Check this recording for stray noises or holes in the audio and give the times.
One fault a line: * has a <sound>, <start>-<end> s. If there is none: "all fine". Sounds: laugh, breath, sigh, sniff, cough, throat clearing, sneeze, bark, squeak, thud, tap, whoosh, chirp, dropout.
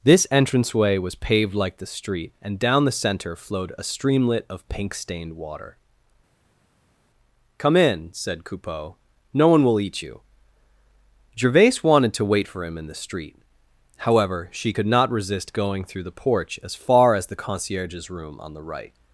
all fine